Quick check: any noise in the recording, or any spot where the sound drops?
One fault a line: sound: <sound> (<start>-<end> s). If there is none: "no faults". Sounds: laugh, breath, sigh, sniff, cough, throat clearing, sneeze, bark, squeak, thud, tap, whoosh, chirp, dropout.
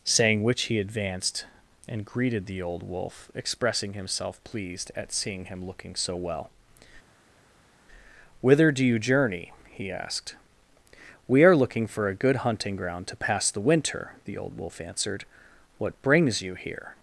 no faults